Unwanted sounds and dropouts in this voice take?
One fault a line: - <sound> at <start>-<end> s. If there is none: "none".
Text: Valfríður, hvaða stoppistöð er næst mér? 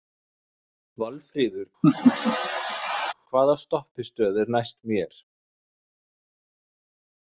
- laugh at 1.8-3.1 s